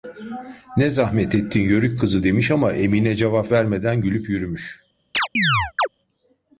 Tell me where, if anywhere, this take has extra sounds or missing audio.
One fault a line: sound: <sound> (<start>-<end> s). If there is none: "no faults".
sound: chirp (5.1-5.9 s)